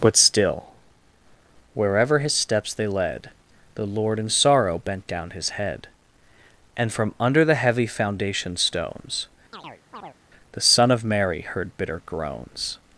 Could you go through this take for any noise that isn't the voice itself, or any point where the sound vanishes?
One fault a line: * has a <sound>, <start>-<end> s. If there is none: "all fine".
* has a chirp, 9.5-10.2 s